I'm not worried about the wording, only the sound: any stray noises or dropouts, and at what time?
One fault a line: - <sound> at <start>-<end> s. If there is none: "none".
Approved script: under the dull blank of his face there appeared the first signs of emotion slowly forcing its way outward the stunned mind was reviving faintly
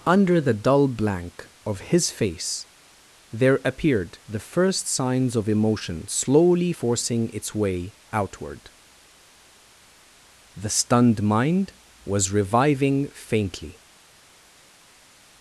none